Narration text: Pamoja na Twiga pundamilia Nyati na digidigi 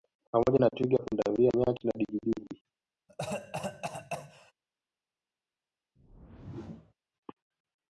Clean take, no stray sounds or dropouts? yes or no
no